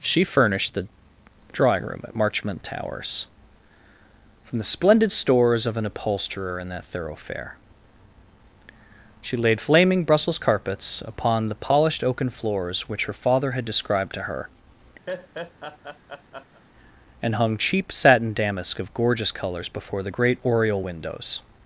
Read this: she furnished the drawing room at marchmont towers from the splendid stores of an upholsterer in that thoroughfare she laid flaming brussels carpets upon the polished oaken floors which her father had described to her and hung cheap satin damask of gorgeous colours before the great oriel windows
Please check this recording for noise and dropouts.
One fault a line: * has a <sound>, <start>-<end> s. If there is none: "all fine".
* has a laugh, 15.1-16.6 s